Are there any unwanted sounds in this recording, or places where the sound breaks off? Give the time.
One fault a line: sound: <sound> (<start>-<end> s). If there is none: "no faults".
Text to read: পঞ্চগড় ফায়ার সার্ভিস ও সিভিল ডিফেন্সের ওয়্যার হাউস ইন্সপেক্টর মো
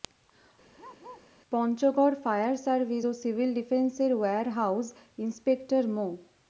sound: bark (0.8-1.3 s)